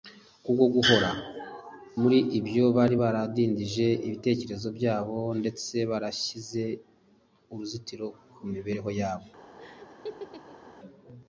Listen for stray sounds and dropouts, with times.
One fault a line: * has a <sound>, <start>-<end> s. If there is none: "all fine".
* has a laugh, 9.6-10.7 s